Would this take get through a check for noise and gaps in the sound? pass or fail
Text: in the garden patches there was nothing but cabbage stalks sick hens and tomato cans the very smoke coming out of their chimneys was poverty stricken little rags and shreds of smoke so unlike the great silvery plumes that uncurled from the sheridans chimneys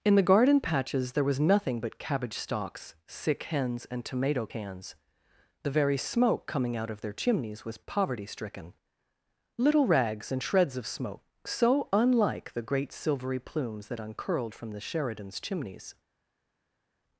pass